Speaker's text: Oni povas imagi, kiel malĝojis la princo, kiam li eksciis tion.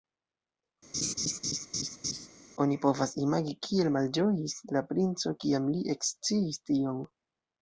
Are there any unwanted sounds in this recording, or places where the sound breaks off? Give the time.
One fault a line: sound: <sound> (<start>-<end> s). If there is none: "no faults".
sound: laugh (0.9-2.3 s)